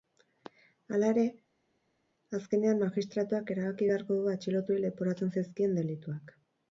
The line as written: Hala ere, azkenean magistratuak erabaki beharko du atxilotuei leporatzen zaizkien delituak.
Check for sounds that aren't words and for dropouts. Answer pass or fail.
pass